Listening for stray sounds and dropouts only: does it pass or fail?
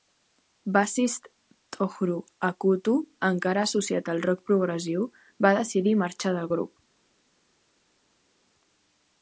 pass